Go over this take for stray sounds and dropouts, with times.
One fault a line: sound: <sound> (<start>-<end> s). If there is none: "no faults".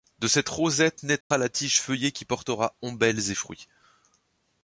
sound: dropout (1.2-1.3 s)